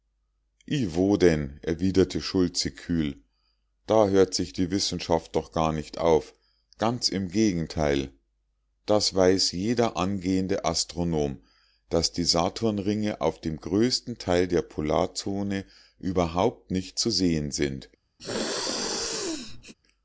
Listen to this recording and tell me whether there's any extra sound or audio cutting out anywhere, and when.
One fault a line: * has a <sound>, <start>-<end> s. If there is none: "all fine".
* has a sneeze, 18.2-19.7 s